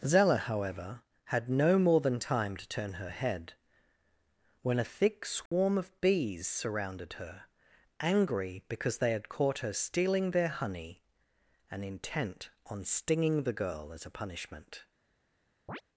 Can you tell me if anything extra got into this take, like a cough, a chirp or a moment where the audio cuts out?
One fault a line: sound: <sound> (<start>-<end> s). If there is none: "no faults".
sound: dropout (5.5-5.5 s)
sound: chirp (15.7-15.8 s)